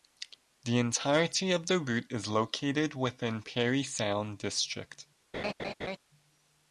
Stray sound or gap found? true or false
true